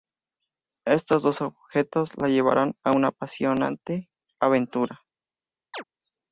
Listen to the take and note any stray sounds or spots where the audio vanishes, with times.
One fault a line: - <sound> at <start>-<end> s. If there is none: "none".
- chirp at 5.7-5.8 s